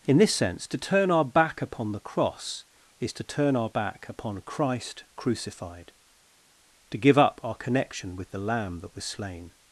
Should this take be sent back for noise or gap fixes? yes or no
no